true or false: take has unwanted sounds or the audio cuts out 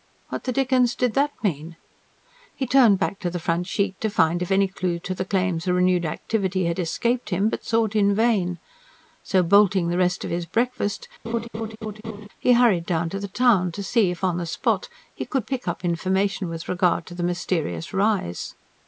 true